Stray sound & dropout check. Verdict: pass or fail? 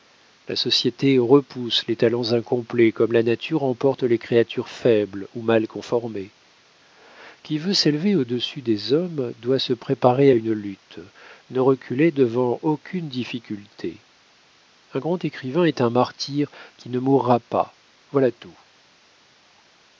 pass